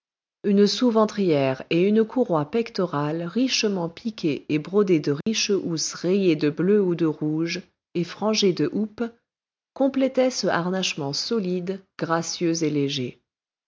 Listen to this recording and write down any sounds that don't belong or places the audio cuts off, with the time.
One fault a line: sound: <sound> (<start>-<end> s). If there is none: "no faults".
sound: dropout (5.2-5.3 s)